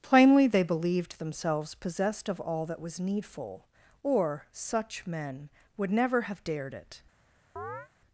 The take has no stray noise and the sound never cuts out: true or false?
false